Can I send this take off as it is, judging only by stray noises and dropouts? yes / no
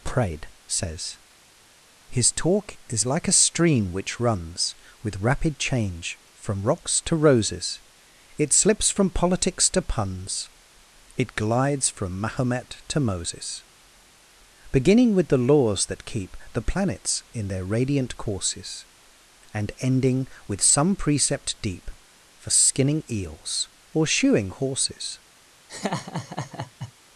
no